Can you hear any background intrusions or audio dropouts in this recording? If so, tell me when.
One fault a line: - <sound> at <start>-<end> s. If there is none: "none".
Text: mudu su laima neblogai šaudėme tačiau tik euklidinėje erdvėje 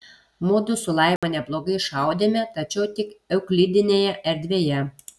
- dropout at 1.2-1.2 s